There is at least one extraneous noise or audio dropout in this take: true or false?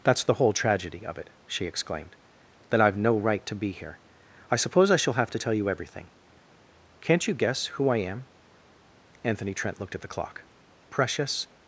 false